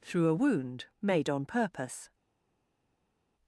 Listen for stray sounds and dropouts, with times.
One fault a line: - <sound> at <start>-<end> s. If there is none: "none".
none